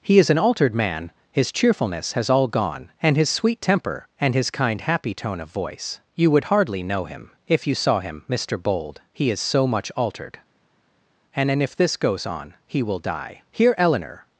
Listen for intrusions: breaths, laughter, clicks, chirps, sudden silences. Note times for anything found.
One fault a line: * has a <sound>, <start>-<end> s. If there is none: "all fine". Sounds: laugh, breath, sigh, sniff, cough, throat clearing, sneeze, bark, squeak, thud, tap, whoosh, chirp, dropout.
all fine